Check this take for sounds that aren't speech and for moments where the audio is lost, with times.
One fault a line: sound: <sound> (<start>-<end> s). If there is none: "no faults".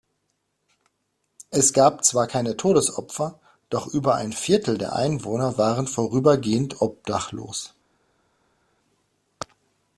no faults